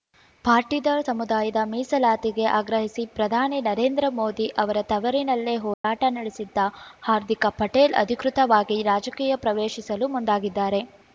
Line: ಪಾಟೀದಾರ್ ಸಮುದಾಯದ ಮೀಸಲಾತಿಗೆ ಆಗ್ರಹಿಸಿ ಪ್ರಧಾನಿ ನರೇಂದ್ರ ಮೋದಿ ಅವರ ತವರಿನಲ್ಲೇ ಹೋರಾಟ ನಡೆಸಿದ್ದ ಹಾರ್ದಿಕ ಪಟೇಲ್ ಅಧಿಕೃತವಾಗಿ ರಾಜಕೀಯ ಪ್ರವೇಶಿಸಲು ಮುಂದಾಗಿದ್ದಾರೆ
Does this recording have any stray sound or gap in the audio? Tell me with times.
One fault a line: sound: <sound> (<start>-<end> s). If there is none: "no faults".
sound: dropout (5.7-5.8 s)